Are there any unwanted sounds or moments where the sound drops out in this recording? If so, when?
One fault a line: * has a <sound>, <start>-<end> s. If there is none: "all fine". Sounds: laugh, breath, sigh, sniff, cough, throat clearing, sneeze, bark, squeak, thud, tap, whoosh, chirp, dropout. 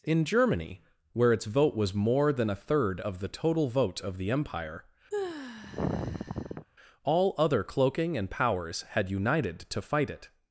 * has a sigh, 5.1-6.7 s